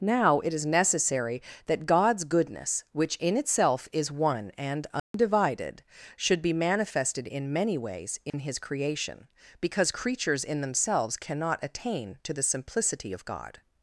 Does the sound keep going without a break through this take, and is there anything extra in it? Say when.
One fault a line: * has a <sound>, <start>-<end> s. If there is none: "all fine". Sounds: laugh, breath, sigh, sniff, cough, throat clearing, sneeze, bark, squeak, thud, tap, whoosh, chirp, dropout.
* has a dropout, 5.0-5.1 s
* has a dropout, 8.3-8.3 s